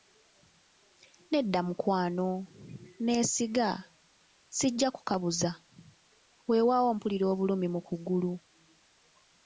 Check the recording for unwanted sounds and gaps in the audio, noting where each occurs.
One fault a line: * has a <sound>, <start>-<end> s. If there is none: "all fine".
all fine